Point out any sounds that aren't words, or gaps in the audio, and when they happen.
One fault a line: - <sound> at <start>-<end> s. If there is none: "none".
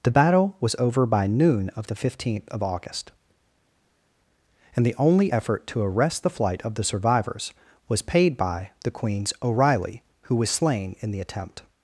none